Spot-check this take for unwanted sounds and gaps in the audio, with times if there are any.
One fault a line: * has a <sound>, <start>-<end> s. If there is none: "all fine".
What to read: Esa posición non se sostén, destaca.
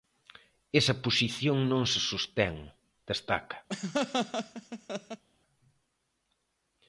* has a laugh, 3.7-5.2 s